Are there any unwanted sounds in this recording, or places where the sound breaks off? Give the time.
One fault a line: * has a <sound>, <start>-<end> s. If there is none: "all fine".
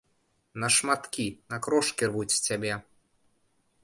all fine